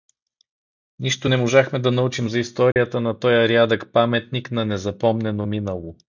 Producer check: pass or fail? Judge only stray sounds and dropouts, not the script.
fail